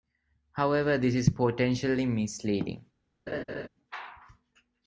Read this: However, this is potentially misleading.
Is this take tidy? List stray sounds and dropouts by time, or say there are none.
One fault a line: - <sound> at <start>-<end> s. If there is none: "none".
- laugh at 3.3-3.7 s